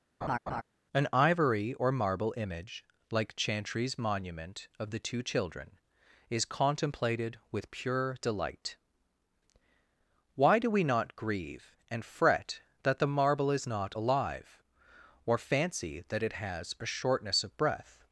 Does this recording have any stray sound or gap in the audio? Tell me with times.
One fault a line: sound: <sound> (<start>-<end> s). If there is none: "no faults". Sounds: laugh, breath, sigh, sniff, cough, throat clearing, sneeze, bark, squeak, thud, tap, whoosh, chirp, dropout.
sound: laugh (0.2-0.6 s)